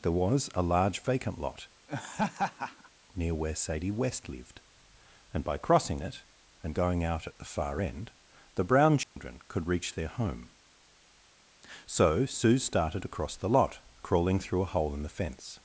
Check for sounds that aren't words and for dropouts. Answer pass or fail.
fail